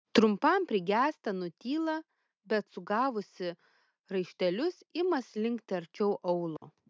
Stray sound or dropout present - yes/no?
yes